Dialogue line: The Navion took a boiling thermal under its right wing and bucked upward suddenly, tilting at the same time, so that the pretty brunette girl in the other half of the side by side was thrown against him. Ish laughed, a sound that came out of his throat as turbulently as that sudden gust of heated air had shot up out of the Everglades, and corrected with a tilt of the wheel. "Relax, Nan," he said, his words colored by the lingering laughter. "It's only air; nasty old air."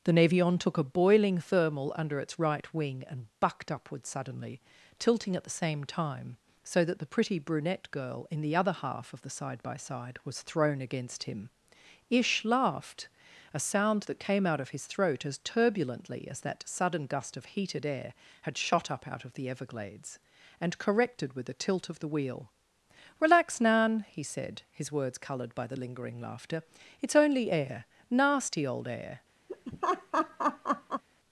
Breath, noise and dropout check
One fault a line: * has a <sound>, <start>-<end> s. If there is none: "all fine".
* has a laugh, 29.5-31.0 s